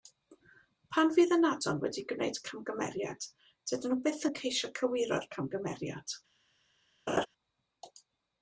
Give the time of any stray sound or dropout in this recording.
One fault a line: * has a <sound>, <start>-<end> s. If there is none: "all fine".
* has a laugh, 7.1-7.3 s